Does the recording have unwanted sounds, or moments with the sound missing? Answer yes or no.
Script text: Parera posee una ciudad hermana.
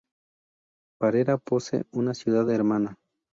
no